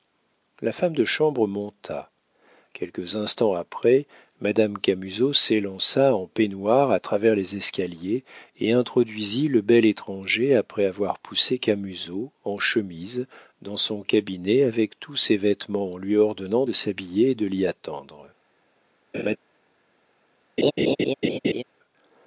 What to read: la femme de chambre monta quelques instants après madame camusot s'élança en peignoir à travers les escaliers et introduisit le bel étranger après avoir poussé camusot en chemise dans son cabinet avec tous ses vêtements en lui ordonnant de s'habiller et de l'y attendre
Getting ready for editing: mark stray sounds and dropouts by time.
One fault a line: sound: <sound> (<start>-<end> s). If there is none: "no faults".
sound: laugh (19.1-19.4 s)
sound: laugh (20.6-21.6 s)